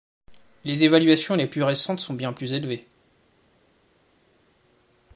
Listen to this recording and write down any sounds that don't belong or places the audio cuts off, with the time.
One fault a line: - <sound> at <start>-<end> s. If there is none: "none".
none